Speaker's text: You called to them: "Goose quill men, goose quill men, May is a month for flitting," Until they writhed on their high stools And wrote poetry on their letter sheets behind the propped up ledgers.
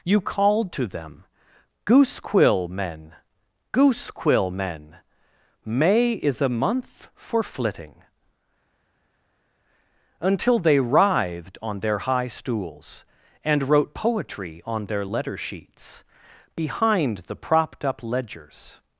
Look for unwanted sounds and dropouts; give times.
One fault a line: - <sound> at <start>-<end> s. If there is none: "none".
none